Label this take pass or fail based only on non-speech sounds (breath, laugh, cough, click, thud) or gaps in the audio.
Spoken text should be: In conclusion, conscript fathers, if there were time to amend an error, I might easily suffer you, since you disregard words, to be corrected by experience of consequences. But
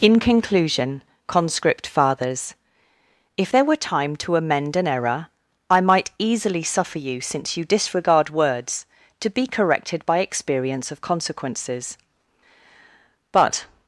pass